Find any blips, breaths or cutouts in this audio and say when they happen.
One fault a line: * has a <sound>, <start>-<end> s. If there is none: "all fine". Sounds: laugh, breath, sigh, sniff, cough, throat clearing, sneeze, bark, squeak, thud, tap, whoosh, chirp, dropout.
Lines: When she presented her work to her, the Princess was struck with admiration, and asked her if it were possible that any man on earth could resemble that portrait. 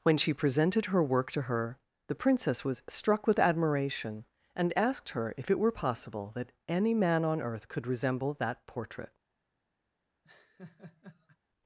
* has a laugh, 10.2-11.4 s